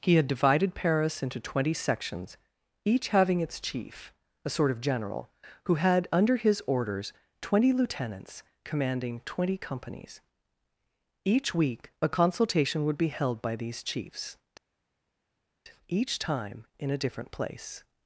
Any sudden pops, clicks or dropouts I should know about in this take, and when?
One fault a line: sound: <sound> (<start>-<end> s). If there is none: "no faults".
no faults